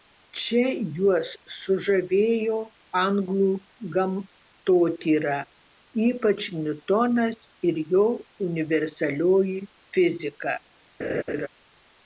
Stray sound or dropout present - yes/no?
yes